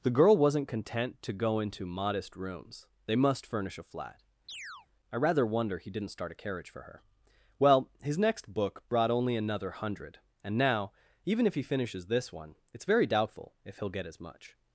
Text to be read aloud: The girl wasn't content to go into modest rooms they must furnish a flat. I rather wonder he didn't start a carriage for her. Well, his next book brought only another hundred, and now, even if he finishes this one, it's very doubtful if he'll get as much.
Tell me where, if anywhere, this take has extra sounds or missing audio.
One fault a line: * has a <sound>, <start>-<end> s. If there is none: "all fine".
* has a chirp, 4.5-4.9 s